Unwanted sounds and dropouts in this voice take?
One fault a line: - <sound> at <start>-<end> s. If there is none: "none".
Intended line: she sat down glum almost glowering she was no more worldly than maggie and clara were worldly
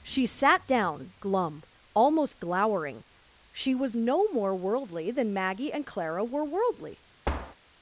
- thud at 7.2-7.5 s